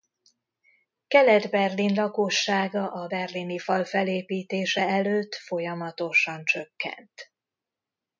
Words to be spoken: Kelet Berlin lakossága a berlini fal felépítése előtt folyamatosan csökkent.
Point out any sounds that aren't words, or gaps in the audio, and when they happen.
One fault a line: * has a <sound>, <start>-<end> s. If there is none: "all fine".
all fine